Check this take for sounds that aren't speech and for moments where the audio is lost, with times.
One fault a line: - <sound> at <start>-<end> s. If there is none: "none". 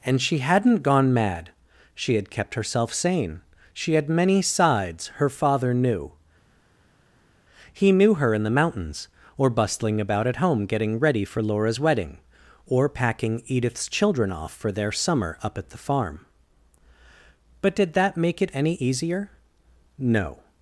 none